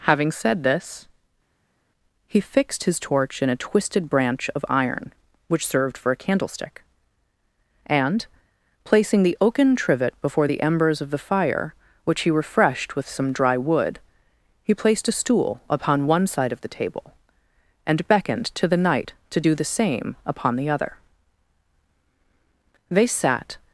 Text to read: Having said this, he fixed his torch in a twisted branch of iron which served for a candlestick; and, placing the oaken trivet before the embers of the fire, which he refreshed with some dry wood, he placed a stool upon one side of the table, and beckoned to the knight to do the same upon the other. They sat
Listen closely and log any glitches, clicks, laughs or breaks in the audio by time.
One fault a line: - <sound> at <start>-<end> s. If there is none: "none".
none